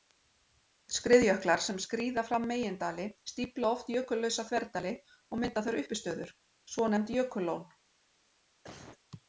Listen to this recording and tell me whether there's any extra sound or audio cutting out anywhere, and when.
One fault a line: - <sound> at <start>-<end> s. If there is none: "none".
- cough at 8.6-9.0 s